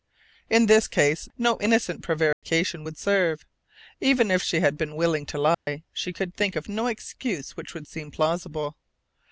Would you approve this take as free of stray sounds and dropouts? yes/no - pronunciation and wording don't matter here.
no